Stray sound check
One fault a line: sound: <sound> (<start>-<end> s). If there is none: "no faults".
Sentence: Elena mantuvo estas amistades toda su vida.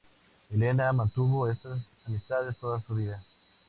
no faults